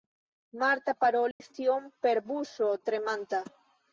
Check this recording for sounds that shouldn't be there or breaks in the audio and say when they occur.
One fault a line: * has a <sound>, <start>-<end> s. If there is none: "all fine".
* has a dropout, 1.3-1.4 s